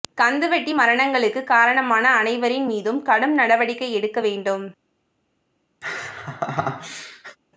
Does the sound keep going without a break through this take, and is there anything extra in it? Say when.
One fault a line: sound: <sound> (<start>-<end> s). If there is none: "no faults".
sound: laugh (5.8-7.4 s)